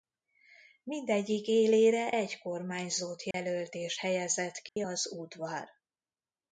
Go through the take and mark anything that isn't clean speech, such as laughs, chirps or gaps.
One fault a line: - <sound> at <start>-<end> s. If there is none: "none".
- dropout at 3.3-3.3 s
- dropout at 4.7-4.8 s